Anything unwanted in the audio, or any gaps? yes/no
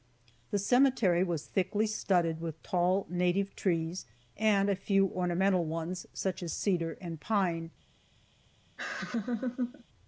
yes